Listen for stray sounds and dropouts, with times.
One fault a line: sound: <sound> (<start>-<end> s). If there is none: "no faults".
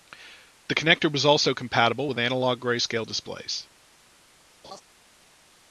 sound: laugh (4.6-4.8 s)